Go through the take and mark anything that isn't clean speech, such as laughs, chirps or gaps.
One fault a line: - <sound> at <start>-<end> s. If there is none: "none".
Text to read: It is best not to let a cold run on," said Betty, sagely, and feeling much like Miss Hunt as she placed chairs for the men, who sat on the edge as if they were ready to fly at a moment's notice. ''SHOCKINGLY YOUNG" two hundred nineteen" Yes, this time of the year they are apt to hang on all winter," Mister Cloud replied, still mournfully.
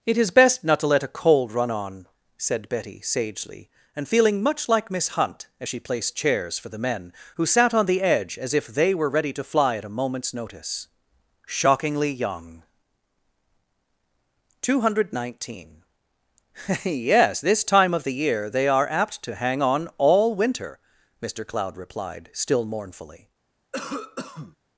- cough at 23.7-24.6 s